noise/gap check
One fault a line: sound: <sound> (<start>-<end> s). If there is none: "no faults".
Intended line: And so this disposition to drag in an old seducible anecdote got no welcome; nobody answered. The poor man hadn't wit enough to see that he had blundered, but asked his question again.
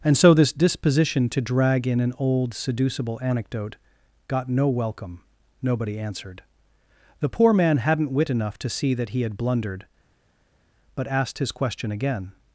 no faults